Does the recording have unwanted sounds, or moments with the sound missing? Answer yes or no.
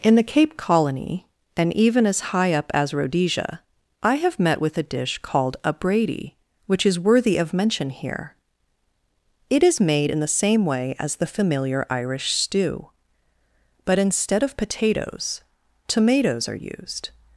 no